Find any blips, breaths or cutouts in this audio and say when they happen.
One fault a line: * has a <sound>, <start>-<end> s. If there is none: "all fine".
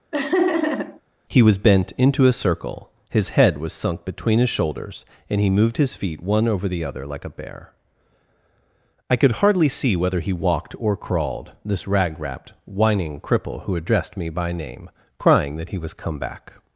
* has a laugh, 0.1-1.0 s